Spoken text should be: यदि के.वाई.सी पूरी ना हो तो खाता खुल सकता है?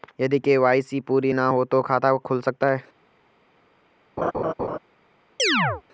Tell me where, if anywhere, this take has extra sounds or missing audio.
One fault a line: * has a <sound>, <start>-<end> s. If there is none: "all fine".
* has a laugh, 4.2-4.8 s
* has a chirp, 5.4-5.8 s